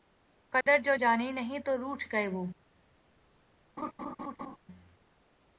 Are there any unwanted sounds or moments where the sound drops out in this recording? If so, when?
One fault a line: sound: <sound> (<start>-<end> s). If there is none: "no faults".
sound: dropout (0.6-0.7 s)
sound: laugh (3.8-4.6 s)